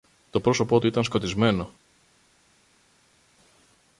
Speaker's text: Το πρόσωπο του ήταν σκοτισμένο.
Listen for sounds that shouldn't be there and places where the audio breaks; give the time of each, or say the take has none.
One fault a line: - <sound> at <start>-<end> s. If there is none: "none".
none